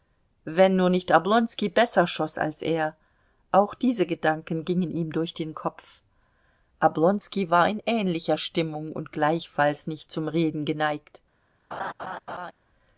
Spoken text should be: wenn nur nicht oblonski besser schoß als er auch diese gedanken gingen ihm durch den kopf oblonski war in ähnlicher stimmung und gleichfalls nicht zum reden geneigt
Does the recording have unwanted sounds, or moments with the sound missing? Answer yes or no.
yes